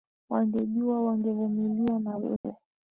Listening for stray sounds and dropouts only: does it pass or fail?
fail